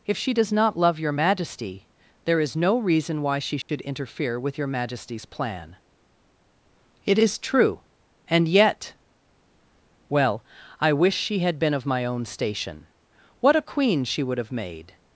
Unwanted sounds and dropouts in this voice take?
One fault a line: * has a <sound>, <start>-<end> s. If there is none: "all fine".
* has a dropout, 3.6-3.7 s